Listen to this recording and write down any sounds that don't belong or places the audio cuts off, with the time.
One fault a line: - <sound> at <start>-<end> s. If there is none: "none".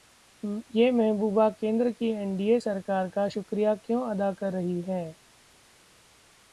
none